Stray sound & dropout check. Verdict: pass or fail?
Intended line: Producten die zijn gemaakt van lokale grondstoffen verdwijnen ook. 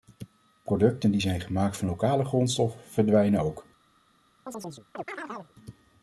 fail